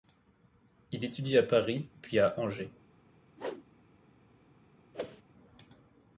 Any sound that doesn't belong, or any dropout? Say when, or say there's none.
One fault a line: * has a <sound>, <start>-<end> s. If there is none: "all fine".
* has a whoosh, 3.4-3.7 s
* has a whoosh, 4.9-5.2 s